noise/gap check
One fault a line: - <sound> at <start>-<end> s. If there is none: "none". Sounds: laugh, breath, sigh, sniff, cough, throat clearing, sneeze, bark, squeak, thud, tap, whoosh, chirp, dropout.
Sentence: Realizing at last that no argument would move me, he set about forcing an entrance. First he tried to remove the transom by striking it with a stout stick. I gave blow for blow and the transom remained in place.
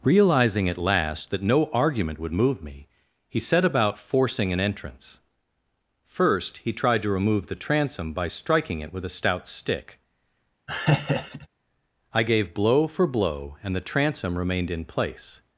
- laugh at 10.7-11.5 s